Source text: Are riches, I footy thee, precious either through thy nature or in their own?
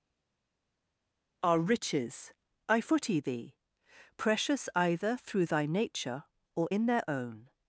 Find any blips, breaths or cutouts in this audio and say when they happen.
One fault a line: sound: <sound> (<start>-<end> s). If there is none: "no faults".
no faults